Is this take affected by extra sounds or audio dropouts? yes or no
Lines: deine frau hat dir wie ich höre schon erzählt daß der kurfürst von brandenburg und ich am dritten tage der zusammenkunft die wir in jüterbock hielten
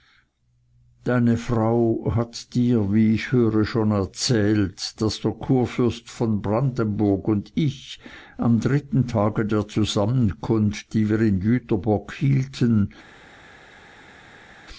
no